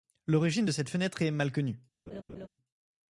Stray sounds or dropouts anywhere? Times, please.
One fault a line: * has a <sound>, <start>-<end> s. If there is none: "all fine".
* has a laugh, 2.1-2.5 s